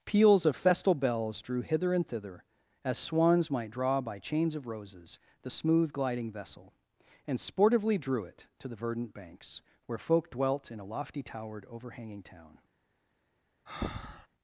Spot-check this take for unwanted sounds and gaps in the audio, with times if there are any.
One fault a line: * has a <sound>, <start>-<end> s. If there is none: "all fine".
* has a breath, 13.7-14.3 s